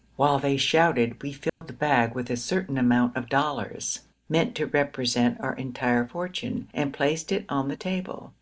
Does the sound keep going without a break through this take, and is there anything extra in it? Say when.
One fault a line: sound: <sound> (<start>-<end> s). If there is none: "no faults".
sound: dropout (1.5-1.6 s)